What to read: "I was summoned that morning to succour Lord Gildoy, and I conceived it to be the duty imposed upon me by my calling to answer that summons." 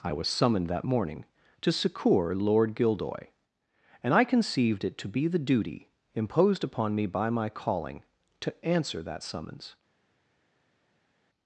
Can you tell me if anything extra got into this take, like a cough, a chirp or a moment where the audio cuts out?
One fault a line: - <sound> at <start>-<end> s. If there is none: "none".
none